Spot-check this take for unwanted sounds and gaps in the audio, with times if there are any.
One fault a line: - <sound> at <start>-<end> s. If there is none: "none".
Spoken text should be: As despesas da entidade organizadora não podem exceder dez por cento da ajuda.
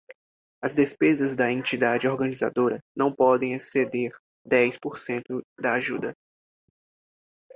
none